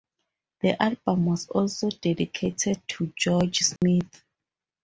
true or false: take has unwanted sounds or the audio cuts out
true